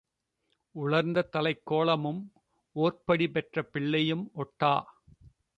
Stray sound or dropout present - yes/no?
no